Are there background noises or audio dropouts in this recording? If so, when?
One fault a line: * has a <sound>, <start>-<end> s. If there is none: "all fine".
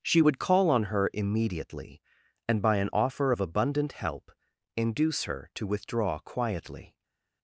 all fine